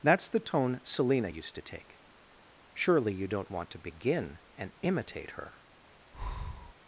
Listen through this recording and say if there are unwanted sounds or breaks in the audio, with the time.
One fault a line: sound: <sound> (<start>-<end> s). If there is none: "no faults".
sound: breath (6.1-6.7 s)